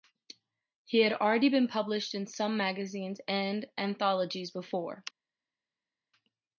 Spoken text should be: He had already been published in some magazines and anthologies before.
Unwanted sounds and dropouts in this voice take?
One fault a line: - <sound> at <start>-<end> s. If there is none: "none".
none